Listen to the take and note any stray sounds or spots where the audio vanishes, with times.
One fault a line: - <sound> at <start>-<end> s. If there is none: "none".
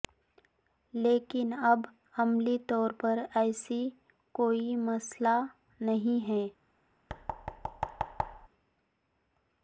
- thud at 7.1-8.5 s